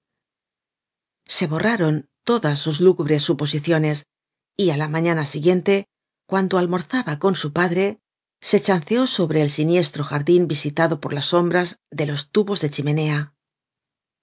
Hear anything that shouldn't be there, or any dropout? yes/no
no